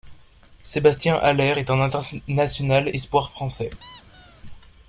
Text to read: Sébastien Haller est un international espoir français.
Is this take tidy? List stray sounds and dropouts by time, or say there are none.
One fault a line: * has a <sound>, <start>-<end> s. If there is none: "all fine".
* has a squeak, 3.8-4.4 s